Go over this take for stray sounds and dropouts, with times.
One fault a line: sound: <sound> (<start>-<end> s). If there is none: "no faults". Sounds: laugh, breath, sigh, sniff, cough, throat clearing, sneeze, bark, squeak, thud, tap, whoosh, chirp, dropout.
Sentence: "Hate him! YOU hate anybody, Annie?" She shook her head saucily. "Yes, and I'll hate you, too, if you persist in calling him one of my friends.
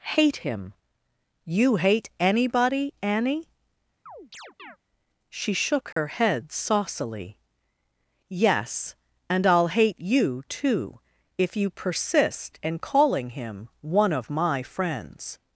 sound: chirp (4.1-4.8 s)
sound: dropout (5.9-6.0 s)